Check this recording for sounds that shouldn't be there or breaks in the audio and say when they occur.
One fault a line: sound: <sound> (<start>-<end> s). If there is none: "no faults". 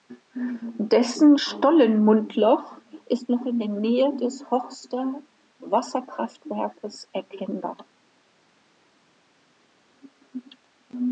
no faults